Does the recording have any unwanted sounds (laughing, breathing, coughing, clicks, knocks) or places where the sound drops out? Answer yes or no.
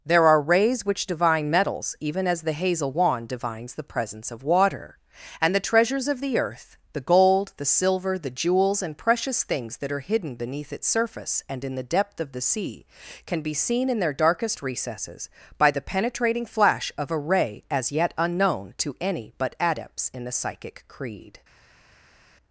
no